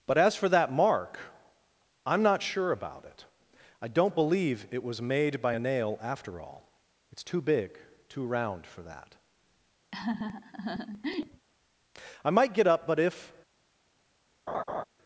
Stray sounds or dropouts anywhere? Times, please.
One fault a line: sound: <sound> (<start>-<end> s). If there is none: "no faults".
sound: laugh (9.9-11.5 s)
sound: laugh (14.5-14.8 s)